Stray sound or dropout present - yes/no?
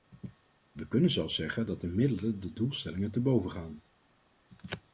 no